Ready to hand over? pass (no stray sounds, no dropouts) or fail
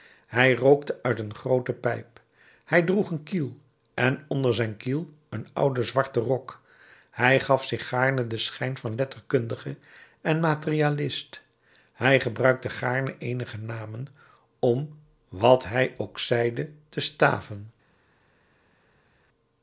pass